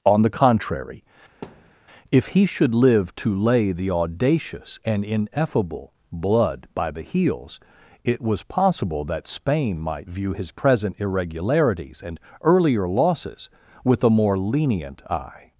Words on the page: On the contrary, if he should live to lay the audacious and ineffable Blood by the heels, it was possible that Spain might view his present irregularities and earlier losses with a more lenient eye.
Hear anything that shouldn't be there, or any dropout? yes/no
yes